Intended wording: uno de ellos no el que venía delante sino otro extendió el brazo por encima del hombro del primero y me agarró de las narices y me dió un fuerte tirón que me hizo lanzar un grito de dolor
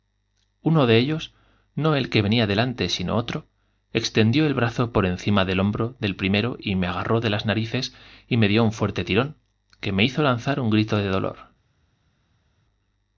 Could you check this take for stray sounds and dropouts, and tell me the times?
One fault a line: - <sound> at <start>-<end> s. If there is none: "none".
none